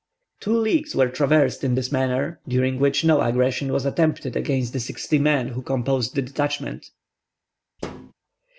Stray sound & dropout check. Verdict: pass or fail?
fail